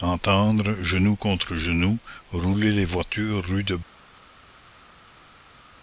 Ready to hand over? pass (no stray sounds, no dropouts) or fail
pass